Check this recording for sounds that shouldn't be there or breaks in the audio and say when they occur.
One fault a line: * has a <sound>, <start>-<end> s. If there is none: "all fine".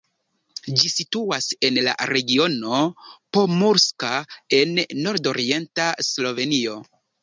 all fine